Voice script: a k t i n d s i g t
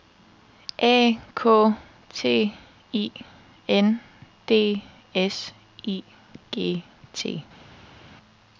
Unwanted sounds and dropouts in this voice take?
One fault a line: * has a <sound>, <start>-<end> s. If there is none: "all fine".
all fine